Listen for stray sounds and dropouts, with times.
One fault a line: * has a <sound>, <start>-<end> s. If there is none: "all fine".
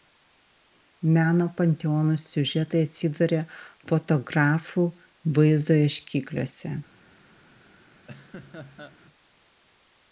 * has a laugh, 8.1-9.0 s